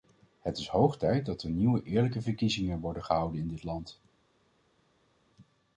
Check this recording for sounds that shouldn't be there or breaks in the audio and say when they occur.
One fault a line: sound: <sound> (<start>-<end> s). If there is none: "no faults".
no faults